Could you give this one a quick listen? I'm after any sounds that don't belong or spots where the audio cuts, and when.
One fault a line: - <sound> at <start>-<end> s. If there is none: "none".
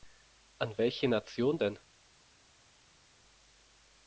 none